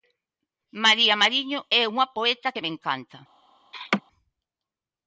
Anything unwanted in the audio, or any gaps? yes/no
yes